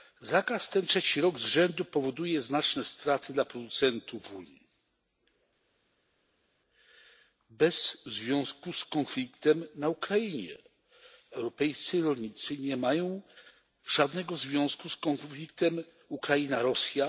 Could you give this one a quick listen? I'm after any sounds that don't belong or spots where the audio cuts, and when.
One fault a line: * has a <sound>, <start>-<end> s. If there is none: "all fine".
all fine